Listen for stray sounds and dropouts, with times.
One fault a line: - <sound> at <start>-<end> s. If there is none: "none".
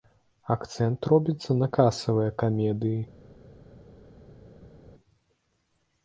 none